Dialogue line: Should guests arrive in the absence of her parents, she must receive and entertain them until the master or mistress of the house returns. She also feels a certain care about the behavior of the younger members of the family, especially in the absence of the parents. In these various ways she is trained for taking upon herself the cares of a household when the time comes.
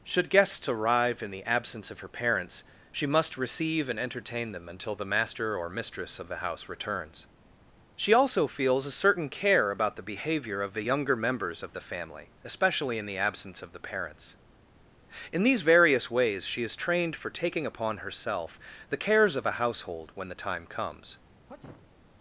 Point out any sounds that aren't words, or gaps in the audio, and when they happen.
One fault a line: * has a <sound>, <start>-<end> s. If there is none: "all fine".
* has a sneeze, 21.5-21.9 s